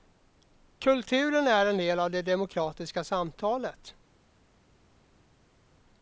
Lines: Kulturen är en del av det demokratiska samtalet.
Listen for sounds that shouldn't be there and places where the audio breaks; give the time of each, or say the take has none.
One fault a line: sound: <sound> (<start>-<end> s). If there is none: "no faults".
no faults